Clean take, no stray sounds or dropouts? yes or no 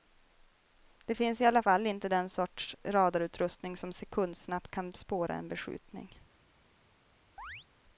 no